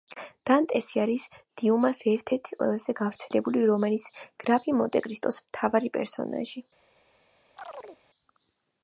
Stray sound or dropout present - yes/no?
yes